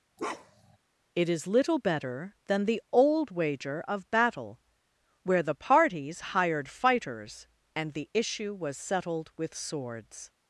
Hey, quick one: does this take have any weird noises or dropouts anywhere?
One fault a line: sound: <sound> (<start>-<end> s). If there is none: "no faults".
sound: bark (0.2-0.8 s)